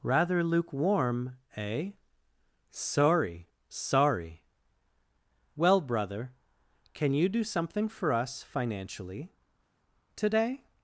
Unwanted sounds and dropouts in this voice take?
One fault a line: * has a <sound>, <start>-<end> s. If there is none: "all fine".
all fine